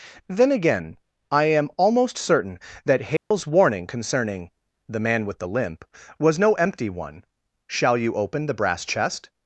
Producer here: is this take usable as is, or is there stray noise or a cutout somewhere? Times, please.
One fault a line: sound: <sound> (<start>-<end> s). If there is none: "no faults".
sound: dropout (3.2-3.3 s)